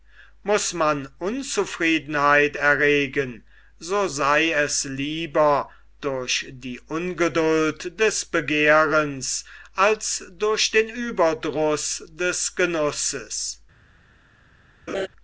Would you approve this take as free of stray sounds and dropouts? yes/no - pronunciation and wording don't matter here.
no